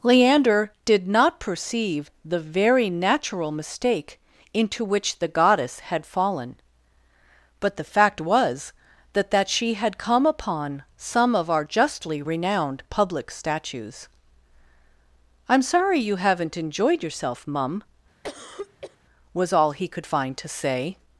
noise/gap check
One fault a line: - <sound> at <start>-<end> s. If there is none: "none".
- cough at 18.2-19.0 s